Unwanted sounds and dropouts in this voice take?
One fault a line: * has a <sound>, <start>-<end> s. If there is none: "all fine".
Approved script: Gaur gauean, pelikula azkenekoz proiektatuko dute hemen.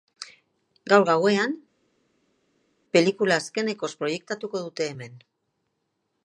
all fine